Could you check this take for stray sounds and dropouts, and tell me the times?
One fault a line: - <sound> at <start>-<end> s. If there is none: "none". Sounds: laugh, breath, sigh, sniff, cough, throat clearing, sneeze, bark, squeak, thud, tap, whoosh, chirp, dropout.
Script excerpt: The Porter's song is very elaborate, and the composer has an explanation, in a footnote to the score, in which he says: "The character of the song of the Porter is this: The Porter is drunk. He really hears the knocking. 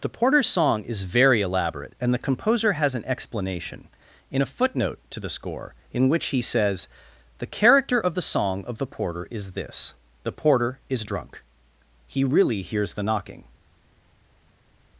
none